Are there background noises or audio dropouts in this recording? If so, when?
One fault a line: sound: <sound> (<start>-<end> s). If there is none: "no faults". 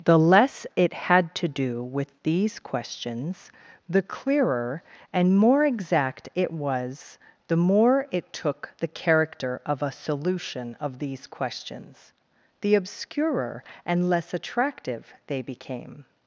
no faults